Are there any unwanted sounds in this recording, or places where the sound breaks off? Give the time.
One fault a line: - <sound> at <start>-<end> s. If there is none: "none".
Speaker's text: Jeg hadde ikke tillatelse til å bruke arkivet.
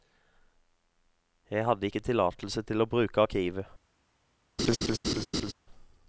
- laugh at 4.6-5.5 s